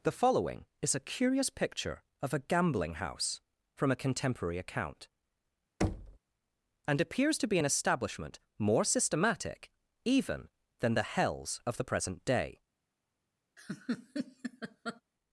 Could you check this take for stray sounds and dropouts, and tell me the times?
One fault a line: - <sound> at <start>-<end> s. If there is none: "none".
- thud at 5.8-6.2 s
- laugh at 13.6-15.0 s